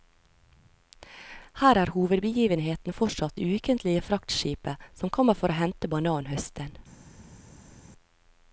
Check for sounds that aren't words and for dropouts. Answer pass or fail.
pass